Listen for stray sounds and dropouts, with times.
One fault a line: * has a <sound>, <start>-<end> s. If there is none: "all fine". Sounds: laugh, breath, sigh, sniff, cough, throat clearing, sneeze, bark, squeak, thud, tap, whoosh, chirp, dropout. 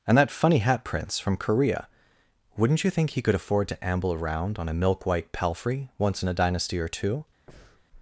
* has a breath, 7.5-7.8 s